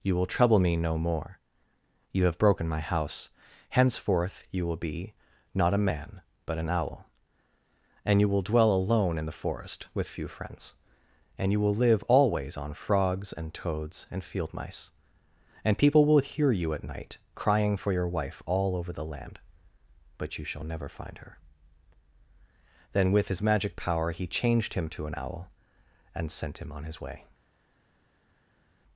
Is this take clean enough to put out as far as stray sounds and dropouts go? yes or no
yes